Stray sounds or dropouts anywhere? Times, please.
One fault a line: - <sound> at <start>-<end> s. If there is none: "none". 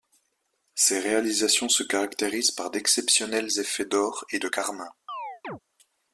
- chirp at 5.1-5.6 s